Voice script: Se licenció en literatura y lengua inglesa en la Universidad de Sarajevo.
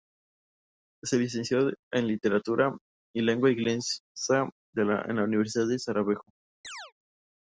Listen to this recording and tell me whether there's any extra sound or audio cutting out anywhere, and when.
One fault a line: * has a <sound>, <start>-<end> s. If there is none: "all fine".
* has a chirp, 6.6-6.9 s